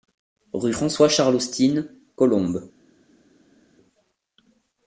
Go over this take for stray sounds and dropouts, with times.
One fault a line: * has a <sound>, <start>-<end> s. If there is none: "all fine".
all fine